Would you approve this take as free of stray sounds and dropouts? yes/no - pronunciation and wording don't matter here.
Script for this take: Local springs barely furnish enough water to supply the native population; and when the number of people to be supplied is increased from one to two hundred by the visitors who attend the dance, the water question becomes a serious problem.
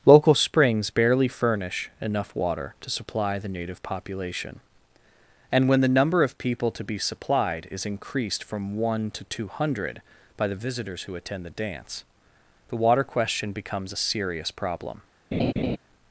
no